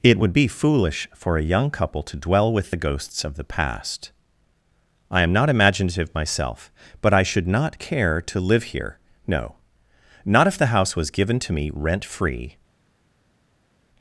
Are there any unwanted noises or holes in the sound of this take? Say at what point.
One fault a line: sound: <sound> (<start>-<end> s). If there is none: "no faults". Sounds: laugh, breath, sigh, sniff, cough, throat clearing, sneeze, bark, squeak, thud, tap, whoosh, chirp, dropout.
no faults